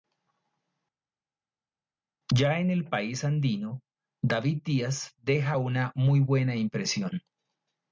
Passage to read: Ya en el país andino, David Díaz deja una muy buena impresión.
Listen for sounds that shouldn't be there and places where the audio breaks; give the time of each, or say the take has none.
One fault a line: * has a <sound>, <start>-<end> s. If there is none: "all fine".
all fine